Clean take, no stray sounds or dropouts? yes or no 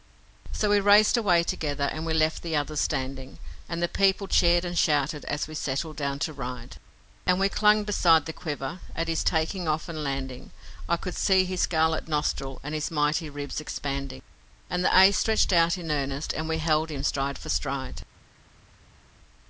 yes